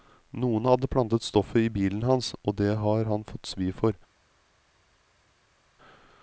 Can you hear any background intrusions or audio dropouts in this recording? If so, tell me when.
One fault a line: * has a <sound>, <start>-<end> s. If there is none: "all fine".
all fine